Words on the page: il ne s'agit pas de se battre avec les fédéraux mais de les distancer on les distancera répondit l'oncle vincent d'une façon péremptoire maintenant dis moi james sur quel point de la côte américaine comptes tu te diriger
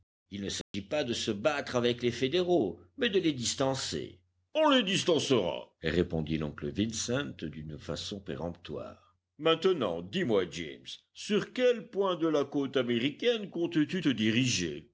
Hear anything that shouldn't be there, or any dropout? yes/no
yes